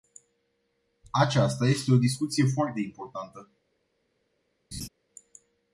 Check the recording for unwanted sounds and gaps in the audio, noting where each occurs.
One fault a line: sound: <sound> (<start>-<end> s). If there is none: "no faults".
sound: laugh (4.7-4.9 s)